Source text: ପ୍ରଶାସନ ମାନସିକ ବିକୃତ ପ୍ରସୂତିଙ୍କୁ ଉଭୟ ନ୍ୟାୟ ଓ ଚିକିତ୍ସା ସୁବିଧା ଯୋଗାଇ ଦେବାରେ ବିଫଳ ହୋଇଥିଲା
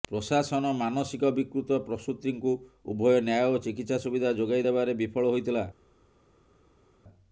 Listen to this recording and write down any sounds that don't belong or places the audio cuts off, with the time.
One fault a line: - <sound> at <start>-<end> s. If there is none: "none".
none